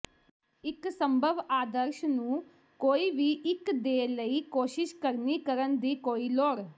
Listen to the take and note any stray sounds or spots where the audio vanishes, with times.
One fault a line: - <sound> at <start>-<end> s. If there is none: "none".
none